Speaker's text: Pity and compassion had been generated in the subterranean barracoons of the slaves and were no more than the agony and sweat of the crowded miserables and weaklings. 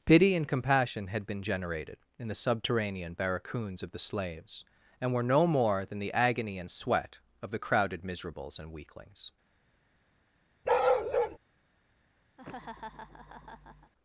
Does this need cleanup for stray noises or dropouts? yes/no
yes